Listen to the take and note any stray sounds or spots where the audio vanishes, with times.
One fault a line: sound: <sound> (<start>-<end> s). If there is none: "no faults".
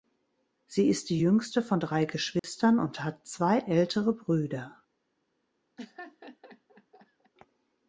sound: dropout (2.4-2.4 s)
sound: laugh (5.8-7.3 s)